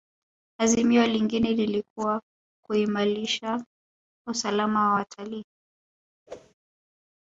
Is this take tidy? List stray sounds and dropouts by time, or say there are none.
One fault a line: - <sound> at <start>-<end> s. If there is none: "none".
- whoosh at 6.3-6.5 s